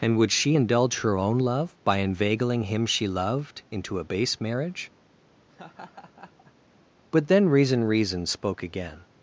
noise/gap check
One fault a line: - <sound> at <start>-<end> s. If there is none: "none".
- laugh at 5.5-6.5 s